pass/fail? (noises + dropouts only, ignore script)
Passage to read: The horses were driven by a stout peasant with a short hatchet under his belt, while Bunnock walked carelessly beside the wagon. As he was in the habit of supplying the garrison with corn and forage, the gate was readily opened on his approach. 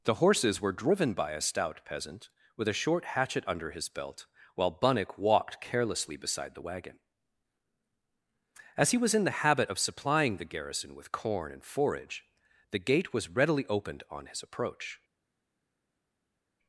pass